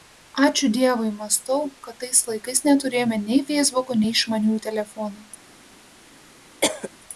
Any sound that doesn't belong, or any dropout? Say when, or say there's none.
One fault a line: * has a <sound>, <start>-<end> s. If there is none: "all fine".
* has a cough, 6.6-6.9 s